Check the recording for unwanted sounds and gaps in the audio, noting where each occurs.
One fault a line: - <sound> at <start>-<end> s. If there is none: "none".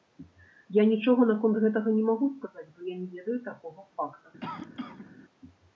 - cough at 4.4-5.1 s